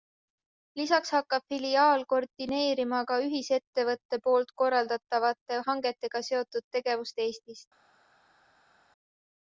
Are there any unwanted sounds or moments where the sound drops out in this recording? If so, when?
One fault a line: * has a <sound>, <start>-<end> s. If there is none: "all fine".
all fine